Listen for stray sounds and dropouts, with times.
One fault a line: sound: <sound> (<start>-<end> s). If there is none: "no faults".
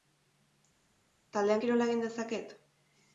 no faults